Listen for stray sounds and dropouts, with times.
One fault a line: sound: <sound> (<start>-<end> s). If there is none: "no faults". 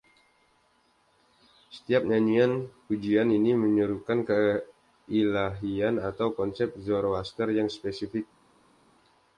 no faults